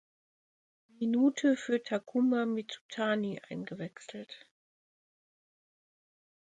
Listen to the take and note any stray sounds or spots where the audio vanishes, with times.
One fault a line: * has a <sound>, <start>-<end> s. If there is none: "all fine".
all fine